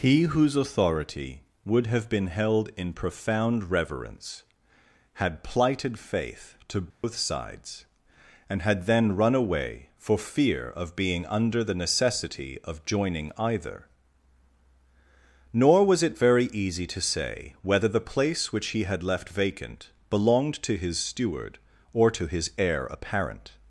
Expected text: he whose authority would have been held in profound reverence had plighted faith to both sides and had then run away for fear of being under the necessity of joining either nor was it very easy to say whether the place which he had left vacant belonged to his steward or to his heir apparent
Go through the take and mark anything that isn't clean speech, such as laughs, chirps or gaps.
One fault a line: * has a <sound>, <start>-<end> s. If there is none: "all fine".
* has a dropout, 6.9-7.0 s